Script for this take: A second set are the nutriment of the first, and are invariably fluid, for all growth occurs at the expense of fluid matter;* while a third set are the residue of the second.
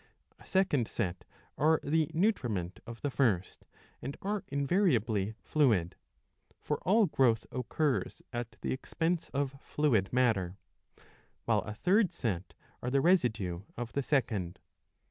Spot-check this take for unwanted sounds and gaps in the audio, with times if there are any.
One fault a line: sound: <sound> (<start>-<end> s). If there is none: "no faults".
no faults